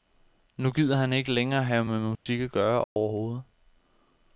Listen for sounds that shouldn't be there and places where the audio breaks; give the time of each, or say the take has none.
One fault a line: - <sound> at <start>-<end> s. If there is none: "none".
- dropout at 2.2-2.3 s
- dropout at 2.8-3.0 s